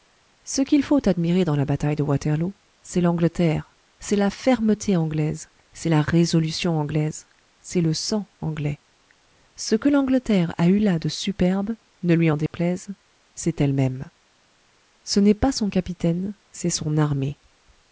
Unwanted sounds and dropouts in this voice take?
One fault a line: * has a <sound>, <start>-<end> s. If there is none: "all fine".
* has a dropout, 12.5-12.5 s